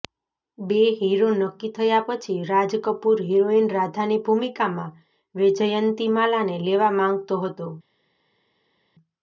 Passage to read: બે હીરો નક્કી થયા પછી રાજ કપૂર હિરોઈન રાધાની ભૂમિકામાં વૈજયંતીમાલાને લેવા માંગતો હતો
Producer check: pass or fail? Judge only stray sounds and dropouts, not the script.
pass